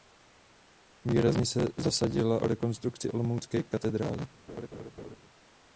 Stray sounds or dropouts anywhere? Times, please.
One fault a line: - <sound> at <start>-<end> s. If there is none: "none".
- laugh at 4.5-5.2 s